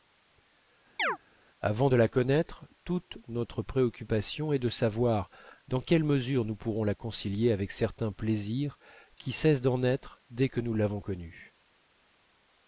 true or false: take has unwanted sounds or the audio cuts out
true